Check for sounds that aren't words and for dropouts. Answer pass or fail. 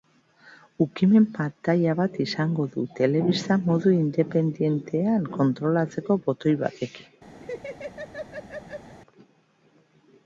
fail